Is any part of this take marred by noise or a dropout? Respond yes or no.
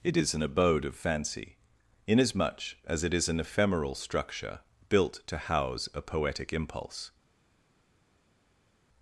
no